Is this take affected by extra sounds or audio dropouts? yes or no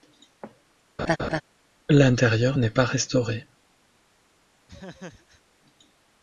yes